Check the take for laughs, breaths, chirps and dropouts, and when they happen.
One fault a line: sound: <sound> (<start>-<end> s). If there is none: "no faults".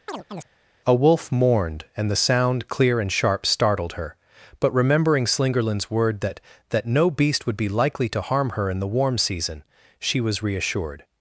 sound: chirp (0.1-0.5 s)